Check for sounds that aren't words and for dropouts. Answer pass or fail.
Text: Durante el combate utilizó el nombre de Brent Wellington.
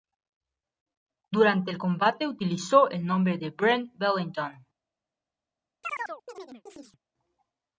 fail